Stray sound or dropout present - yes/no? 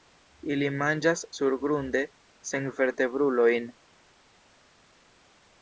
no